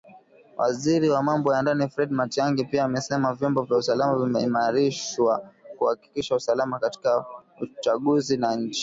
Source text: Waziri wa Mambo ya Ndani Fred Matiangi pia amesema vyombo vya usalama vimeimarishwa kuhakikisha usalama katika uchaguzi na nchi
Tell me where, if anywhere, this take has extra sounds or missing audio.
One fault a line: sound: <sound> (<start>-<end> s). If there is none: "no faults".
no faults